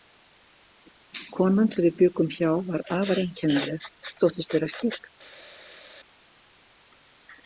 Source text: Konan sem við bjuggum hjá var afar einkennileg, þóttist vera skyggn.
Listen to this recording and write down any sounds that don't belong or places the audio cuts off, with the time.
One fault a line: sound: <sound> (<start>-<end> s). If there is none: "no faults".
no faults